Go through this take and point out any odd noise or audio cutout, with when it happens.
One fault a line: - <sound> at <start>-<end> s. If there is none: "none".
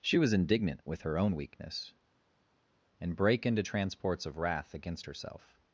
none